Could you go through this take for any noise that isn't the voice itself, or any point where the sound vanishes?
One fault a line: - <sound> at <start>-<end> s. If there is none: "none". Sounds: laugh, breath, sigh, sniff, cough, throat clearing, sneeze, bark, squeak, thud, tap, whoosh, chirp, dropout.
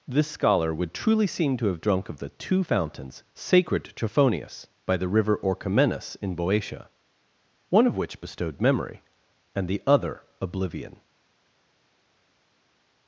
none